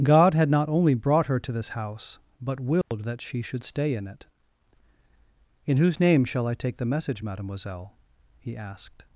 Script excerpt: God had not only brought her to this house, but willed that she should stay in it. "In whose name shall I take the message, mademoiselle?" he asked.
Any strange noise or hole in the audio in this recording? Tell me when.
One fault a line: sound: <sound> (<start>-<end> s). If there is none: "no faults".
sound: dropout (2.8-2.9 s)